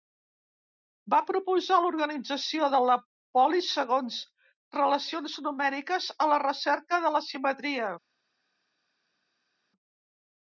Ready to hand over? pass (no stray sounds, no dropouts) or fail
pass